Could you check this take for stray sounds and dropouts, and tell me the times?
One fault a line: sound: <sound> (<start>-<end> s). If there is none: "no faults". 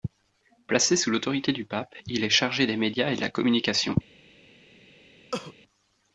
sound: cough (5.3-5.5 s)